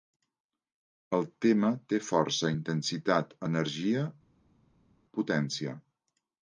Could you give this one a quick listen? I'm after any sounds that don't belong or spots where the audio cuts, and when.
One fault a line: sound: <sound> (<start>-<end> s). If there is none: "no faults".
no faults